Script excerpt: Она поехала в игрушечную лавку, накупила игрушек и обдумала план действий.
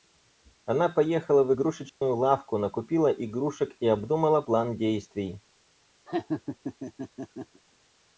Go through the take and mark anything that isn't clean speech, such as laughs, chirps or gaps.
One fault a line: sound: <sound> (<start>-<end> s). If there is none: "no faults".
sound: dropout (1.9-2.0 s)
sound: laugh (6.1-7.6 s)